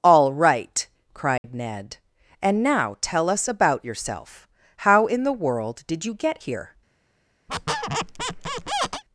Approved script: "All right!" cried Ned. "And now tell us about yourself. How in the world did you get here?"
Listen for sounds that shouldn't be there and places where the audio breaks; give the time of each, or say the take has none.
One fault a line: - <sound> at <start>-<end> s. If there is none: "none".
- dropout at 1.4-1.4 s
- squeak at 7.5-9.0 s